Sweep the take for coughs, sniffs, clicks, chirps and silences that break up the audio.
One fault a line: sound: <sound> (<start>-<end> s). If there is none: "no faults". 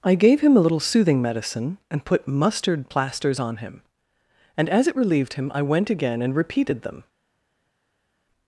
no faults